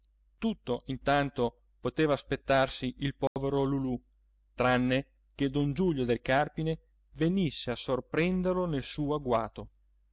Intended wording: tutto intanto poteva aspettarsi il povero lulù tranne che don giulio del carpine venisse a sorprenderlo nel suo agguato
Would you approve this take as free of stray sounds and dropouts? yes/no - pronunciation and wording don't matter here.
no